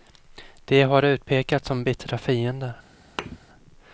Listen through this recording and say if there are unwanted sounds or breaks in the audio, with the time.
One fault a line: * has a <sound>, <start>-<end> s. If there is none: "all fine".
* has a thud, 3.2-3.4 s